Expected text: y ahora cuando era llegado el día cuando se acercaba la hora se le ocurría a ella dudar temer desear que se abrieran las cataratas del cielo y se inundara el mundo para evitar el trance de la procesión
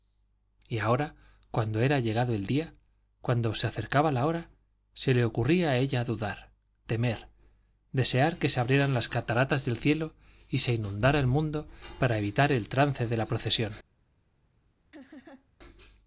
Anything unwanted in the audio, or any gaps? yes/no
yes